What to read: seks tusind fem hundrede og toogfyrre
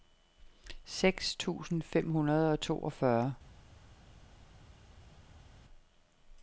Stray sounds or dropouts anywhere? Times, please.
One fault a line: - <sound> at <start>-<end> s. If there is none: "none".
none